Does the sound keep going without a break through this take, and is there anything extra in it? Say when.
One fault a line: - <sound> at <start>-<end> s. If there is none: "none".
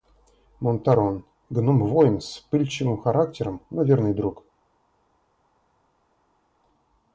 none